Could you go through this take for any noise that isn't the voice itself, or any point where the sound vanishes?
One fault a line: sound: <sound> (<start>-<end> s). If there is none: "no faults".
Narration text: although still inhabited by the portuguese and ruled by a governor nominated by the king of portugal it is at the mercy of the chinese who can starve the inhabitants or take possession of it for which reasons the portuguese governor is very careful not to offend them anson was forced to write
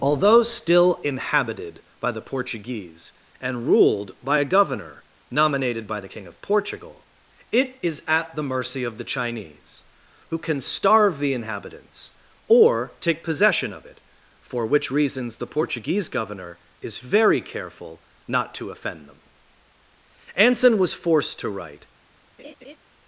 sound: laugh (22.4-22.8 s)